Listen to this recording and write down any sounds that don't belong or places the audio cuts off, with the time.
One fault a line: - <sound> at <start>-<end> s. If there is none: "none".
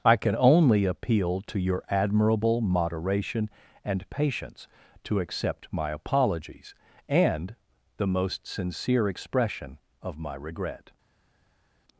none